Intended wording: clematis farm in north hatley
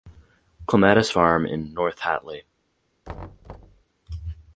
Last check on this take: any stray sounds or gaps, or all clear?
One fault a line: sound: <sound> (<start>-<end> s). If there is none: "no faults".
sound: thud (3.0-3.8 s)